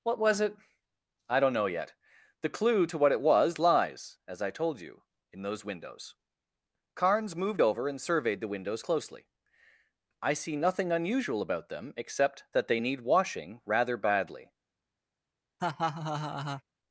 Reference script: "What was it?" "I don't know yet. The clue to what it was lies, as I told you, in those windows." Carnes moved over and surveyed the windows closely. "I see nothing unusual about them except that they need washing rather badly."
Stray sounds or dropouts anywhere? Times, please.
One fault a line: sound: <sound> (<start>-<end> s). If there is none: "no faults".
sound: laugh (15.6-16.6 s)